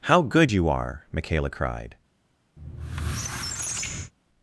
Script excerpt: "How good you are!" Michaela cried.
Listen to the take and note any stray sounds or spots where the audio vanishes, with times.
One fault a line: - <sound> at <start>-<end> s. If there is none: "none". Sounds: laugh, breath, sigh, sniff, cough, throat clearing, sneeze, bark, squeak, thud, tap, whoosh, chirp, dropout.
- squeak at 2.6-4.1 s